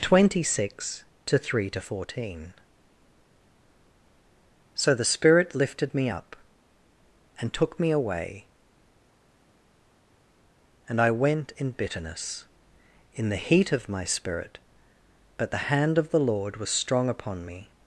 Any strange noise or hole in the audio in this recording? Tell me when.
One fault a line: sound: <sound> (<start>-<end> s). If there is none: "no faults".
no faults